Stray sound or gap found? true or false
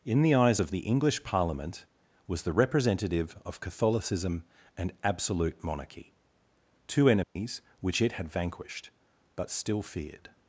true